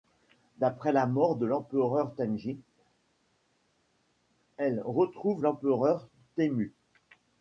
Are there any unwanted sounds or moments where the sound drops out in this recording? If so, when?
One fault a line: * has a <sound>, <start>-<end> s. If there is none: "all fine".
all fine